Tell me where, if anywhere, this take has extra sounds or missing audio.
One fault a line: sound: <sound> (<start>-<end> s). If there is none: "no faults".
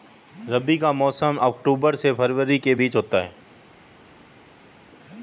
no faults